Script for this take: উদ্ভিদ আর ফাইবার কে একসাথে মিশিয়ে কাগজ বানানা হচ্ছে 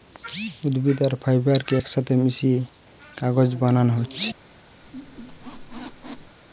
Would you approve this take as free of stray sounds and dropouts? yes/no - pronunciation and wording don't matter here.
no